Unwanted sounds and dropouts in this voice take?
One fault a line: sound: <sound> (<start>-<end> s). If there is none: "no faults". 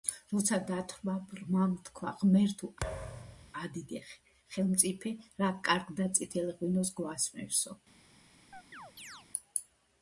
sound: thud (2.8-3.5 s)
sound: chirp (8.5-9.3 s)